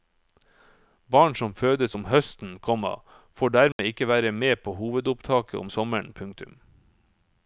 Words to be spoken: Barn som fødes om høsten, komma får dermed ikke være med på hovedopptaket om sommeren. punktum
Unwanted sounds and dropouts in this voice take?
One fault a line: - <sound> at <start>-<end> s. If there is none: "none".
- dropout at 3.7-3.8 s